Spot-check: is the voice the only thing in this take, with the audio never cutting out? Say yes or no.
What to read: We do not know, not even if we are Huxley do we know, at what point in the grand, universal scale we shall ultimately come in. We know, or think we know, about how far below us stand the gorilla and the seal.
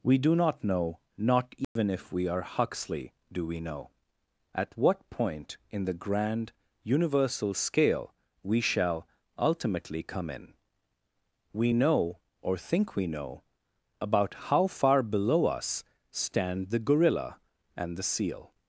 no